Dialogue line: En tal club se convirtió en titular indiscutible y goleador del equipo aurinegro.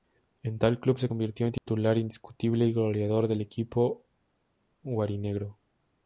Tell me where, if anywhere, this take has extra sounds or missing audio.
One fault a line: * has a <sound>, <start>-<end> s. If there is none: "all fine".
* has a dropout, 1.6-1.7 s